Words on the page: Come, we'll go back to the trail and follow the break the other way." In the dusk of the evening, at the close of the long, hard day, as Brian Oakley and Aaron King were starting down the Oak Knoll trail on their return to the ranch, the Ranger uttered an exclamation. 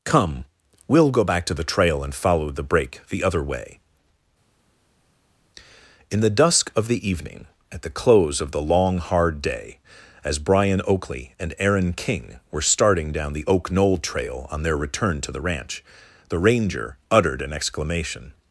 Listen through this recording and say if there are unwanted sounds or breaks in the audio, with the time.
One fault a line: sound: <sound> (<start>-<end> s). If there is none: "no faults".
no faults